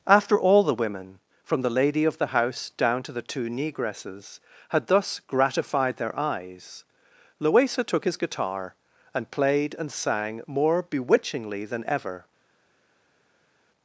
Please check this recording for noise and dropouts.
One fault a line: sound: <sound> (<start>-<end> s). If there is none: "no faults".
no faults